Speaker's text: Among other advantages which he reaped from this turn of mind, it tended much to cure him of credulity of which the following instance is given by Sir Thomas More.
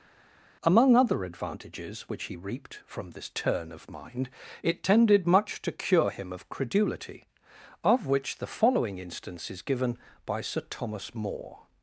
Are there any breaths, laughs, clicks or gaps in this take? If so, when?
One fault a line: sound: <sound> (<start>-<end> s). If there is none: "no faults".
no faults